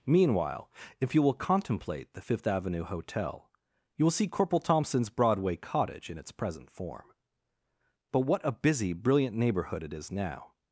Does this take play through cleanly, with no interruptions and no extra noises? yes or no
yes